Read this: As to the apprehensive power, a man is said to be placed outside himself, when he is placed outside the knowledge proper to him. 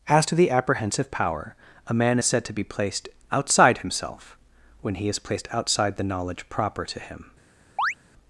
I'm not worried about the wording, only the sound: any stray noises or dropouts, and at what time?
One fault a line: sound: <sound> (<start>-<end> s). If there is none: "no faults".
sound: chirp (7.8-7.9 s)